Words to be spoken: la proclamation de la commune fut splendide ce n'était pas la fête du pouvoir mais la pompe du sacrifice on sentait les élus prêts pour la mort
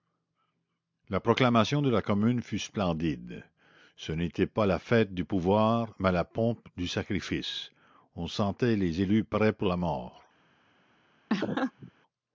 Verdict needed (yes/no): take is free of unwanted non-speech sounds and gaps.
no